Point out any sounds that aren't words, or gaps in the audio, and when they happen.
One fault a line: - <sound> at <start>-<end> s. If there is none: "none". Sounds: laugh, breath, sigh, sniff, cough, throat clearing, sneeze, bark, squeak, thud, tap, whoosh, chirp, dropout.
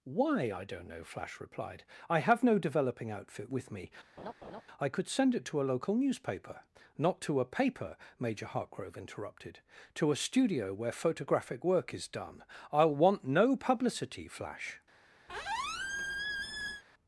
- laugh at 4.2-4.6 s
- squeak at 15.3-16.8 s